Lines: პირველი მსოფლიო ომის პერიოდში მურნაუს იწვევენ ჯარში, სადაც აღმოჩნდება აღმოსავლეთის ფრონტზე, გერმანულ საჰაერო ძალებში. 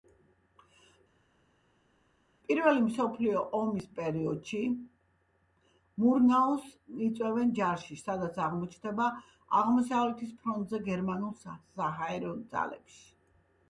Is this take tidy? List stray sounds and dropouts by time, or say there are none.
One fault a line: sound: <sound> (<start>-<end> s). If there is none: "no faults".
no faults